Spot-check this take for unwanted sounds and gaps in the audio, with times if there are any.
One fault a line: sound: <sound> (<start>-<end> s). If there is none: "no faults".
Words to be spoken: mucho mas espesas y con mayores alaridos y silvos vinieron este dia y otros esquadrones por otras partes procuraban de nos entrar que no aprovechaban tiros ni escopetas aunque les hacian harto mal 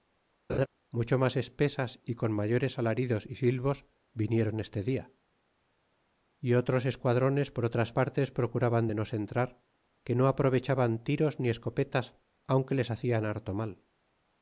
sound: laugh (0.5-0.7 s)